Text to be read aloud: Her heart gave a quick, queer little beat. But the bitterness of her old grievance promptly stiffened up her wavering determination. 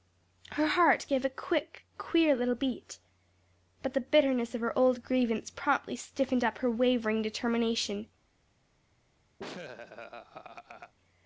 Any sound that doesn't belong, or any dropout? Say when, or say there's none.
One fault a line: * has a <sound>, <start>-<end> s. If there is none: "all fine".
* has a laugh, 9.4-10.9 s